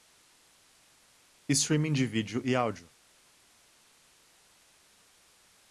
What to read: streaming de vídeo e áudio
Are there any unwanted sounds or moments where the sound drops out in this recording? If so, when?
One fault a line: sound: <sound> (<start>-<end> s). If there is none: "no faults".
no faults